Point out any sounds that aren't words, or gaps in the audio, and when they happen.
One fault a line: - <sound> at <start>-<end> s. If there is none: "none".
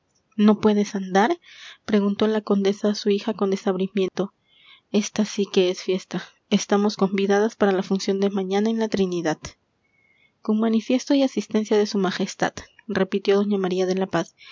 - dropout at 4.1-4.1 s